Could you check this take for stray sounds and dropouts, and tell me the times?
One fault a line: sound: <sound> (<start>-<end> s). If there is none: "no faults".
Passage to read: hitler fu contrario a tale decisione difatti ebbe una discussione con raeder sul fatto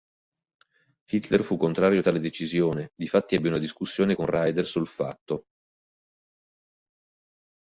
no faults